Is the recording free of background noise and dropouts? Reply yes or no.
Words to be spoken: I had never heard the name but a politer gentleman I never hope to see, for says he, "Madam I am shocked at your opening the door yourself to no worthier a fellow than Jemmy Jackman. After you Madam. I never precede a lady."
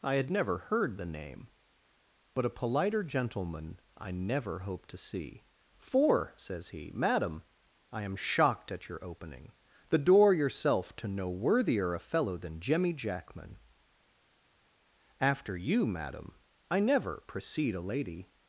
yes